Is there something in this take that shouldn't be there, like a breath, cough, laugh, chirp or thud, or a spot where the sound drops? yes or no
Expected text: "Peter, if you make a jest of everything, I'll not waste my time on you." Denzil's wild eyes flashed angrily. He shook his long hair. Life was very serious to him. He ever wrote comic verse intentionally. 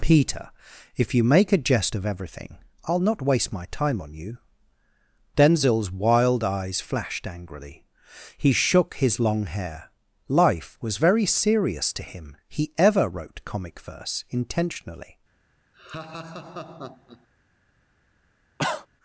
yes